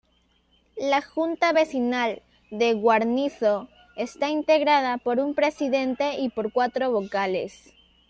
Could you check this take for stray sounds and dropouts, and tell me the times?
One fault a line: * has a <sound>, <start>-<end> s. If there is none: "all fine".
all fine